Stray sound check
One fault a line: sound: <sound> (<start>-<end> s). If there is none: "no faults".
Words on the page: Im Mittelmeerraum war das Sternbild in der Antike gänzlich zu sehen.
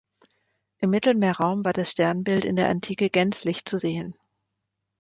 no faults